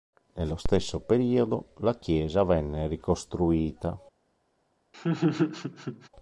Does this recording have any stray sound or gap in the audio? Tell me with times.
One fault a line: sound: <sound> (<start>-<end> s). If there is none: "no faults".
sound: laugh (4.9-6.1 s)